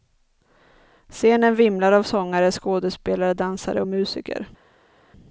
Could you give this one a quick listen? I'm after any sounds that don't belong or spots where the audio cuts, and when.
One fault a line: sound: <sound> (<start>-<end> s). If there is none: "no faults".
no faults